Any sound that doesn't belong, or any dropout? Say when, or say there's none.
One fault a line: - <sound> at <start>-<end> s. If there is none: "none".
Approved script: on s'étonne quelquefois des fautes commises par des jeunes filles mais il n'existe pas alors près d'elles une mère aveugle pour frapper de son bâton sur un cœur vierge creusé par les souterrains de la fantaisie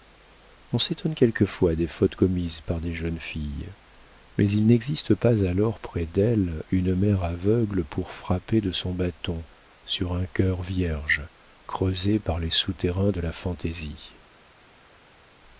none